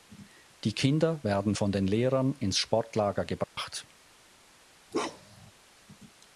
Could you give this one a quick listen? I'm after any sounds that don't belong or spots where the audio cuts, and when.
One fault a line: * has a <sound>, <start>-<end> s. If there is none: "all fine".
* has a dropout, 3.4-3.6 s
* has a bark, 4.9-5.5 s